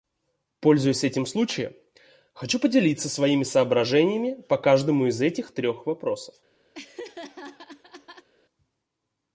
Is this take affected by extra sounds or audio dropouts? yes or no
yes